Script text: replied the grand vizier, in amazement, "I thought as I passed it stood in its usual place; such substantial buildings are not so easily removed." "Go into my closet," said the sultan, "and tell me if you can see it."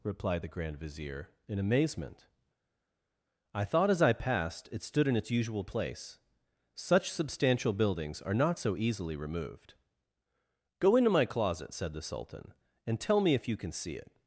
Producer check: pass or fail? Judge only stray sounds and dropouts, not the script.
pass